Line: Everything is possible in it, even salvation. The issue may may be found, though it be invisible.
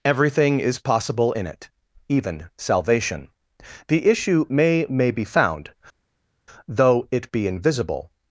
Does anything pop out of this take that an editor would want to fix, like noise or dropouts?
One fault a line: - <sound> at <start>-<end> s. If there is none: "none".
none